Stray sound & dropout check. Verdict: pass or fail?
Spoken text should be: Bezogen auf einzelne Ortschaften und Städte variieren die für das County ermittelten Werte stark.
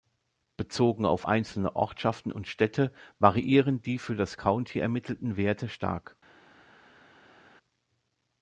pass